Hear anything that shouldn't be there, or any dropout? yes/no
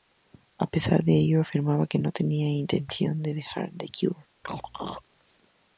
yes